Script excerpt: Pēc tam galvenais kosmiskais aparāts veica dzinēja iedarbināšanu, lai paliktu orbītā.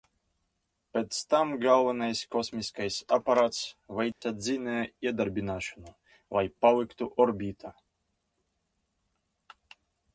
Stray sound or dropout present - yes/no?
yes